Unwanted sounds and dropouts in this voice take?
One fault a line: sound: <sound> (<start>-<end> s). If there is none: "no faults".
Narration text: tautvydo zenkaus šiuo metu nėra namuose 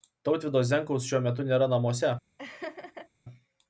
sound: laugh (2.4-3.1 s)